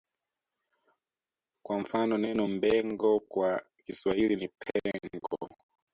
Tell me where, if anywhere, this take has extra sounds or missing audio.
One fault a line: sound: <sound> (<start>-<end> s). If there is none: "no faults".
no faults